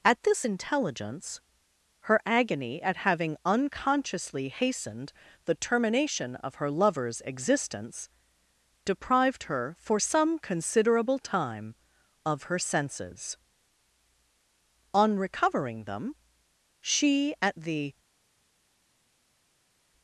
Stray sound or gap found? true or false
false